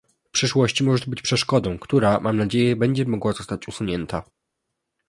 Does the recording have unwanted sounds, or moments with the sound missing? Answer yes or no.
no